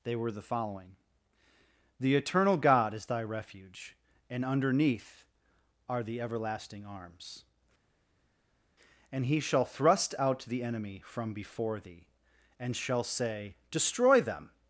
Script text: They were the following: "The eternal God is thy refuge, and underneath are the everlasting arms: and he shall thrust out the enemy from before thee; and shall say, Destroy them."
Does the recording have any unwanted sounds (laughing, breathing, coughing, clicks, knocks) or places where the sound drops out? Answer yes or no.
no